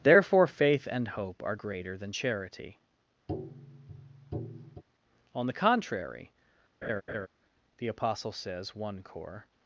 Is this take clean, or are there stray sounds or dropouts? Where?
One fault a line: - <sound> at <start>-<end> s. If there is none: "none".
- tap at 3.3-4.8 s
- laugh at 6.8-7.3 s